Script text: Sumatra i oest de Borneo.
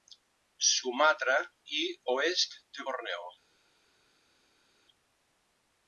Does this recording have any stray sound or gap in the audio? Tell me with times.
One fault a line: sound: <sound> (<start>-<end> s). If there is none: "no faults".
no faults